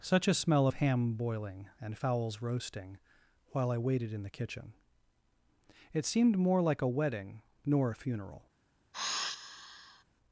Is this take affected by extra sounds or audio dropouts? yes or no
yes